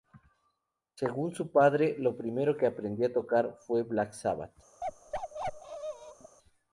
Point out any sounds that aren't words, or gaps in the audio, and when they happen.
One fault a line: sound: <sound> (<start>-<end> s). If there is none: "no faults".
sound: bark (4.8-6.4 s)